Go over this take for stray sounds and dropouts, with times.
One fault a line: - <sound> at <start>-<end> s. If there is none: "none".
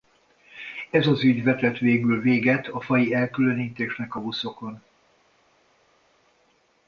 none